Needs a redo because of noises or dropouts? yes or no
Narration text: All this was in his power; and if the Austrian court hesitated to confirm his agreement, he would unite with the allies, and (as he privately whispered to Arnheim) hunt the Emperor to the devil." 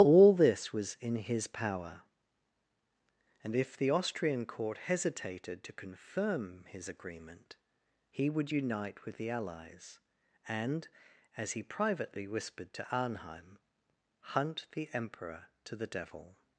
no